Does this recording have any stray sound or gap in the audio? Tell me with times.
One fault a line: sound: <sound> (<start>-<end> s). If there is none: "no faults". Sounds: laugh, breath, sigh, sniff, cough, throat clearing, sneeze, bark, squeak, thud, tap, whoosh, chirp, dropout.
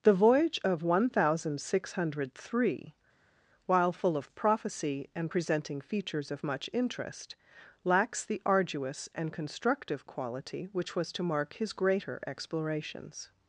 no faults